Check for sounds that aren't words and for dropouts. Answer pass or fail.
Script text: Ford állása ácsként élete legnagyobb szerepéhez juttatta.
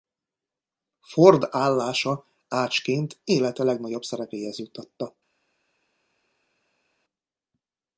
pass